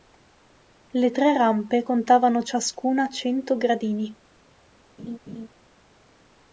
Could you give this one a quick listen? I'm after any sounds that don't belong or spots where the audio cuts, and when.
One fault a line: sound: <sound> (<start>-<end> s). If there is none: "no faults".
sound: laugh (5.0-5.5 s)